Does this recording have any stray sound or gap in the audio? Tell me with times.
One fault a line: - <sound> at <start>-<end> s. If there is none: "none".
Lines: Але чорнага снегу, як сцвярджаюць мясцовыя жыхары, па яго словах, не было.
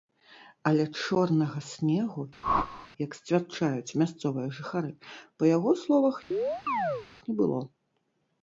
- whoosh at 2.4-2.9 s
- chirp at 6.3-7.1 s